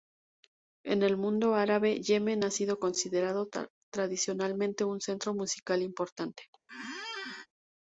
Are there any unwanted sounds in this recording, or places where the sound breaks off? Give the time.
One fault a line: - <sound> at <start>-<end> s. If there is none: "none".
- squeak at 6.7-7.5 s